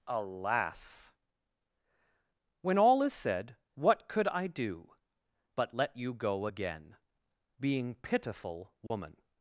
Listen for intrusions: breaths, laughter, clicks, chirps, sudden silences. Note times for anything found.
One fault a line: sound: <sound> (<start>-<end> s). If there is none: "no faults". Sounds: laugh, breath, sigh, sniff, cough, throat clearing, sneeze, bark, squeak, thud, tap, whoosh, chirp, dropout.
sound: dropout (8.9-8.9 s)